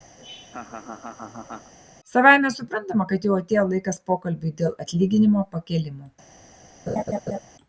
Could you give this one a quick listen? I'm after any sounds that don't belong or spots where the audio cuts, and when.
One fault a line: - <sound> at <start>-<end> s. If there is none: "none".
- laugh at 0.2-1.7 s
- laugh at 6.9-7.4 s